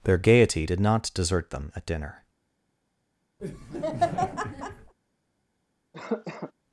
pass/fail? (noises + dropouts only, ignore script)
fail